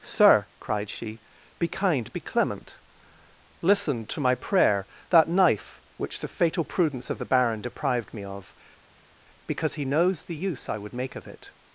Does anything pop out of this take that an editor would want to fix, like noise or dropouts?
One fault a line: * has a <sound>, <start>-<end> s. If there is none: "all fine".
all fine